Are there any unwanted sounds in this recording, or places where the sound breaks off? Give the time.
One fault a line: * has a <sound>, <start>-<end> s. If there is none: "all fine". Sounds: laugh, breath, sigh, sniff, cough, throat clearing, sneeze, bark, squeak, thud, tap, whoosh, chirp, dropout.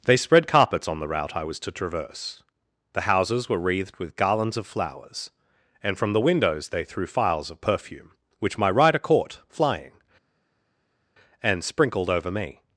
all fine